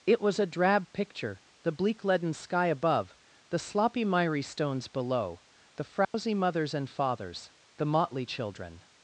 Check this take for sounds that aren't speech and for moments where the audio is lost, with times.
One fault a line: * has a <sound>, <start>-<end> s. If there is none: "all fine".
* has a dropout, 6.0-6.1 s